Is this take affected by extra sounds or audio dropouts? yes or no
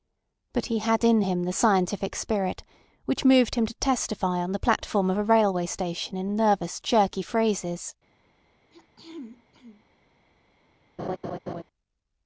yes